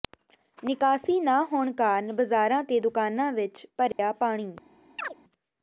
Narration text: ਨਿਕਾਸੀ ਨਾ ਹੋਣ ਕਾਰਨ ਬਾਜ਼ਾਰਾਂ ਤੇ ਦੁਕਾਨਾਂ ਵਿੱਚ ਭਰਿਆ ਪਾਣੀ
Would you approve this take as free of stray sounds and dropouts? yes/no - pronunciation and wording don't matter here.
no